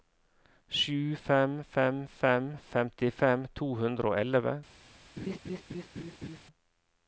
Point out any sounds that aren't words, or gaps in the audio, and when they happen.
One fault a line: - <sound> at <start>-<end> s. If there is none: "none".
- laugh at 5.2-6.4 s